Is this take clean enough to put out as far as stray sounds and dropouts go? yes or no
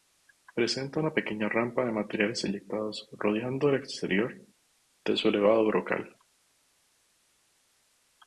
yes